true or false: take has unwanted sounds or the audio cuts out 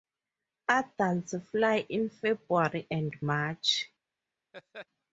true